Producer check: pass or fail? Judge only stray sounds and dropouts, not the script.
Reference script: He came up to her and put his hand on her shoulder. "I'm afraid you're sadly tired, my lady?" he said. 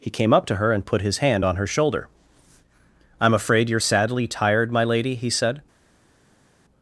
pass